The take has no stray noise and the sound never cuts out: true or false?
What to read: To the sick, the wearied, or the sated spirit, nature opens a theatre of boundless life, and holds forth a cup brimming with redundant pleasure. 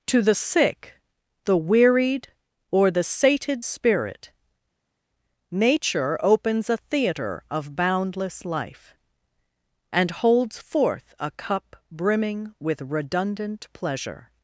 true